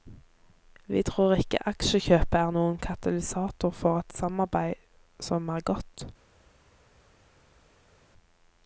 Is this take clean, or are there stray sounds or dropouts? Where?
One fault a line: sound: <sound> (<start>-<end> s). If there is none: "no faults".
no faults